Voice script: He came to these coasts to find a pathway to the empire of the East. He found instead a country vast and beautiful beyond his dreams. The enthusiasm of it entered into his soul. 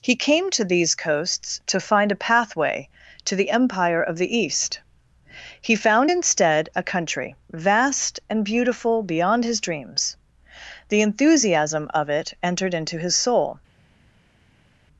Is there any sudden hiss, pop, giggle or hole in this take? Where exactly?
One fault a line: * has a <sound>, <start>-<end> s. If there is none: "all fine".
all fine